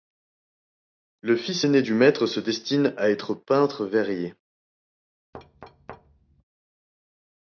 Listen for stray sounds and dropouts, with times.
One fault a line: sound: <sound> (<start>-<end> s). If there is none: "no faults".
sound: thud (5.3-6.4 s)